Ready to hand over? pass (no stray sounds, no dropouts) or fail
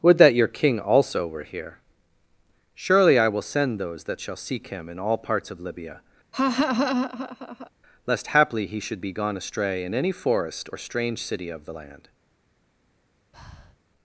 fail